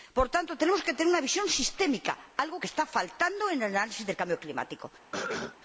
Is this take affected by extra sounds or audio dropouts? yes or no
yes